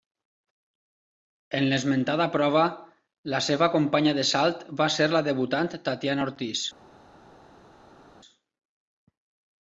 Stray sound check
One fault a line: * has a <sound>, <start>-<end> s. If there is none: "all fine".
all fine